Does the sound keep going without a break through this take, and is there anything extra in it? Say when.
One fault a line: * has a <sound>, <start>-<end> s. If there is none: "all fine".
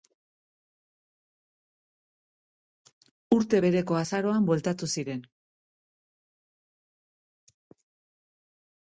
all fine